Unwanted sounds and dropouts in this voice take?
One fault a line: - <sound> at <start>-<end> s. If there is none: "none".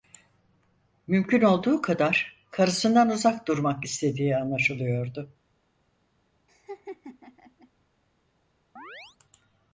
- laugh at 6.5-7.7 s
- chirp at 8.8-9.2 s